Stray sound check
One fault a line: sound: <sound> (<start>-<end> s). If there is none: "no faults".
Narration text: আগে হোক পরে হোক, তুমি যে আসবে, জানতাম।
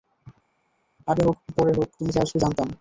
no faults